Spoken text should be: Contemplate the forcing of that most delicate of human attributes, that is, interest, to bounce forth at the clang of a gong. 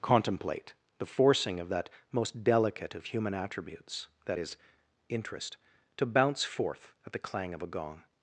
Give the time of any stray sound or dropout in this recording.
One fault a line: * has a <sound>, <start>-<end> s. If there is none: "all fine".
all fine